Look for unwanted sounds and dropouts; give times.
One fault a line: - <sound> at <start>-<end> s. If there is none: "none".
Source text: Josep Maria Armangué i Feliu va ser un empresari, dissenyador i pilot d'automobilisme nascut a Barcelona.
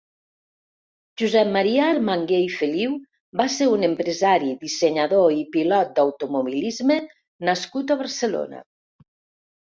none